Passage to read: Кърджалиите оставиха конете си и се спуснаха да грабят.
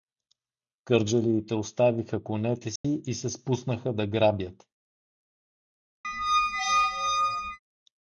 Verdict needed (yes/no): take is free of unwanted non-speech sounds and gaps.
no